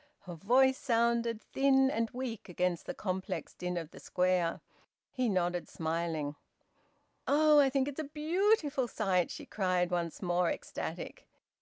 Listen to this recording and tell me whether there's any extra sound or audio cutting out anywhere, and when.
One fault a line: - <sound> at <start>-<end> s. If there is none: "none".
none